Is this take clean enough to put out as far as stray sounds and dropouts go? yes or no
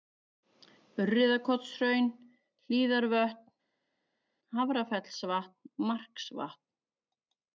yes